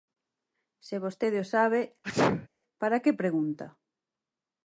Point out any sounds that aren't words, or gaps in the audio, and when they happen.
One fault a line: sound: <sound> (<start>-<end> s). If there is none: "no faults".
sound: sneeze (2.0-2.5 s)